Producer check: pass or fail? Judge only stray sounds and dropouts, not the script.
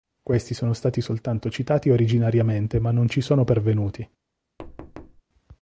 fail